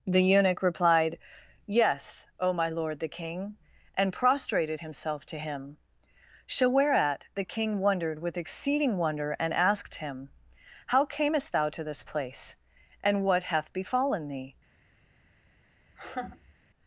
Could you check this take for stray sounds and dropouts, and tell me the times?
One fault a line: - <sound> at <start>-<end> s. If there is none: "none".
- laugh at 15.9-16.5 s